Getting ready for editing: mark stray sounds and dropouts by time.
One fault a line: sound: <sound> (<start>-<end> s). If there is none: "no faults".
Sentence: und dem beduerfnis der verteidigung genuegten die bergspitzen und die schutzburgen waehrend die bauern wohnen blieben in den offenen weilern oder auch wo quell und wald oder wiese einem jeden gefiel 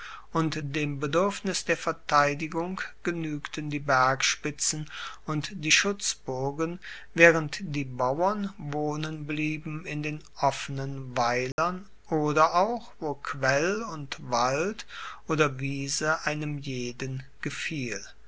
sound: dropout (11.5-11.6 s)